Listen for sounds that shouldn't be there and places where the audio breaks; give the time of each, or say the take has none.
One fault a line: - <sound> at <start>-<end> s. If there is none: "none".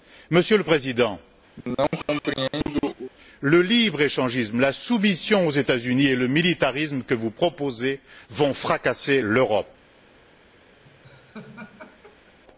- cough at 1.6-3.1 s
- laugh at 10.8-12.4 s